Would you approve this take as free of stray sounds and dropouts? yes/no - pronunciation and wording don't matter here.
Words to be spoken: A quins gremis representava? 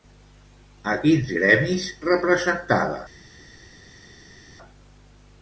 yes